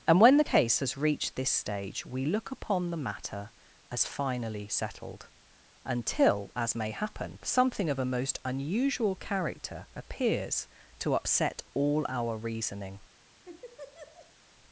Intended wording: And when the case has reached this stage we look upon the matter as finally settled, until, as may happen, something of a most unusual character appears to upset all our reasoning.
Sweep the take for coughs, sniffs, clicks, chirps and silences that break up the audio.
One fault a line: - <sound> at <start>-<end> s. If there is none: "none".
- laugh at 13.4-14.3 s